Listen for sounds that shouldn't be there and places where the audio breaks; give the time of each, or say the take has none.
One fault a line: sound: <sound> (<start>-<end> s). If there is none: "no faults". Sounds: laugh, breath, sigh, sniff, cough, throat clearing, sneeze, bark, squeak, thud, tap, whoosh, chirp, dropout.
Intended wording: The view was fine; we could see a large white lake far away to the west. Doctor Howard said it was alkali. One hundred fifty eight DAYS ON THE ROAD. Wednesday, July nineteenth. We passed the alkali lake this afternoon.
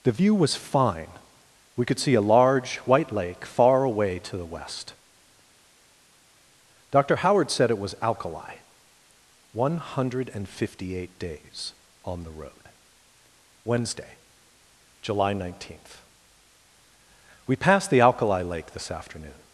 no faults